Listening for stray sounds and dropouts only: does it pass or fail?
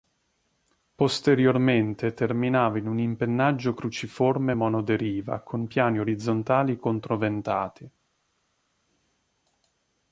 pass